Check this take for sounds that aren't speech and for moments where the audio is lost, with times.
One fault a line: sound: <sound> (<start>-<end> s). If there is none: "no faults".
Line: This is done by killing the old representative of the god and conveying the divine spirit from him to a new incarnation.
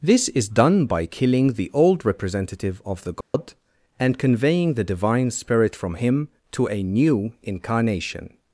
sound: dropout (3.2-3.3 s)